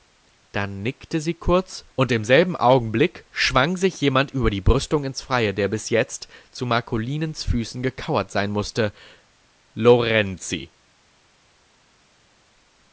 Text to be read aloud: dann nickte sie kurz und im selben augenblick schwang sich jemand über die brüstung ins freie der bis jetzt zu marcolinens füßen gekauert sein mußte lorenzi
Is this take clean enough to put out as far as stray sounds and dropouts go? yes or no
yes